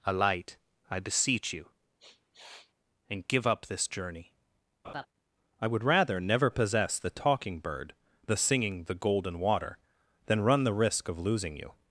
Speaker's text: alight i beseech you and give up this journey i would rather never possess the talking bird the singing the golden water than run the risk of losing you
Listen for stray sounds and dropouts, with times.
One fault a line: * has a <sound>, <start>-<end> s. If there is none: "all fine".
* has a sniff, 2.0-2.7 s
* has a laugh, 4.8-5.1 s